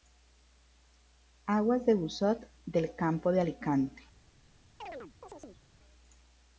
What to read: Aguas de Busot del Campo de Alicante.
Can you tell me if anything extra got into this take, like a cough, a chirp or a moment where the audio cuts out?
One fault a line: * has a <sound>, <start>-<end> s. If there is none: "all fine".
* has a chirp, 4.8-5.6 s